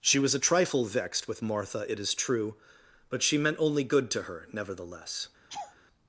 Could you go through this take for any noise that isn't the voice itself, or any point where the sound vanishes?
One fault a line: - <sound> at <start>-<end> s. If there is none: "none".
- laugh at 5.5-5.8 s